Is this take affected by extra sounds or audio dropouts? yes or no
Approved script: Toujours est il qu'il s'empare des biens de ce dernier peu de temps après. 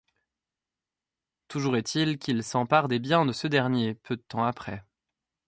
no